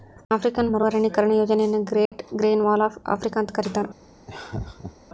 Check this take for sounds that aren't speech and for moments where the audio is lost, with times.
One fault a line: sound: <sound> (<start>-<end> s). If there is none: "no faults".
sound: dropout (2.1-2.1 s)
sound: laugh (4.3-4.9 s)